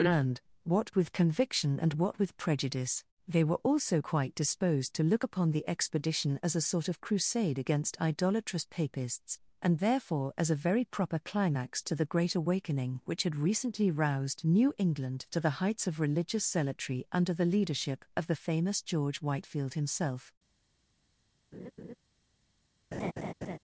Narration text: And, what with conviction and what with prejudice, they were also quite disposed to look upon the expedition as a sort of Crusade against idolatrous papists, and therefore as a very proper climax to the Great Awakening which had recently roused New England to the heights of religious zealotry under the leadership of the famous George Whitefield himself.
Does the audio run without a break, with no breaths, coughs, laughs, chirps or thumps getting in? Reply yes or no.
no